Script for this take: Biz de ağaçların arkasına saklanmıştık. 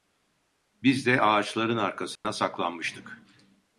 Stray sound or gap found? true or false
true